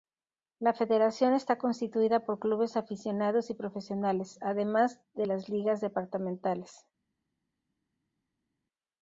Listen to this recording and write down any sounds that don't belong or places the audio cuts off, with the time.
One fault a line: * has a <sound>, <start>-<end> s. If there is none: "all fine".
all fine